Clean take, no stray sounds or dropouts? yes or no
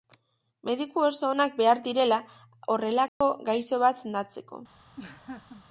no